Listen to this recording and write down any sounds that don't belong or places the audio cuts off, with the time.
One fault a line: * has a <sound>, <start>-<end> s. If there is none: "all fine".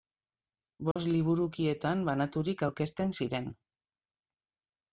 * has a dropout, 0.9-1.0 s